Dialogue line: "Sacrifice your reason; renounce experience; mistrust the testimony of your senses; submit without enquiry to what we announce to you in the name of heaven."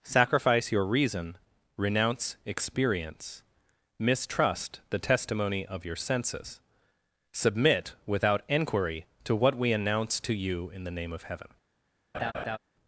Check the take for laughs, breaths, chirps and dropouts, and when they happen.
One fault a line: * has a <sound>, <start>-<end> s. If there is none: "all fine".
* has a laugh, 12.1-12.6 s